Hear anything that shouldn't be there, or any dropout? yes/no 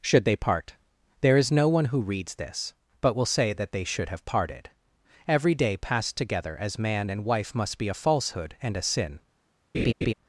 yes